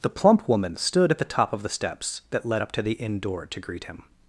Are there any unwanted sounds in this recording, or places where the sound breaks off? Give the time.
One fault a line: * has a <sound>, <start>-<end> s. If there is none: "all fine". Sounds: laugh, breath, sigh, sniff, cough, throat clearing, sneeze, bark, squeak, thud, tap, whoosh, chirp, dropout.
all fine